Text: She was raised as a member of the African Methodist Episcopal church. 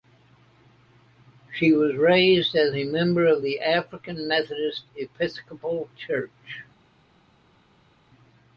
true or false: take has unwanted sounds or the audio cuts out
false